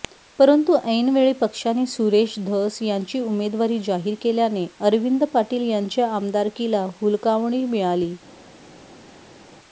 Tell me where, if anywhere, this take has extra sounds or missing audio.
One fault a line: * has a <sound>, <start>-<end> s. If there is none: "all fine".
all fine